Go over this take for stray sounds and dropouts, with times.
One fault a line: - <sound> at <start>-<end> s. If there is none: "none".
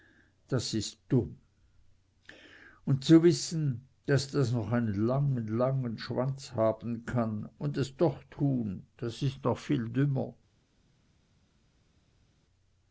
none